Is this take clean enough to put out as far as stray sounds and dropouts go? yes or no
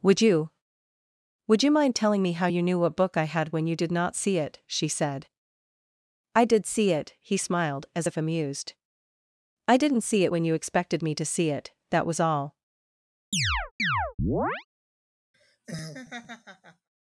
no